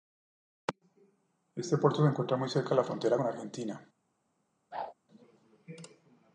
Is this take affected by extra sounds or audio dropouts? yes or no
yes